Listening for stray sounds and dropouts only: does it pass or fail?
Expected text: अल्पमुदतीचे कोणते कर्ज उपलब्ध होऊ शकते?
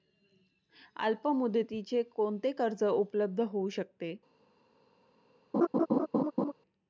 fail